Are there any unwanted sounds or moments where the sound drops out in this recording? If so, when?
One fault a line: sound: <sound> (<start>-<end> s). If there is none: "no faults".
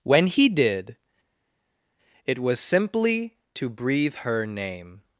no faults